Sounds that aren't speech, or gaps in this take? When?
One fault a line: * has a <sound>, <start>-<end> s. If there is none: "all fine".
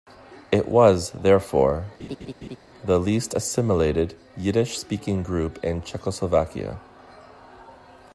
* has a laugh, 2.0-2.6 s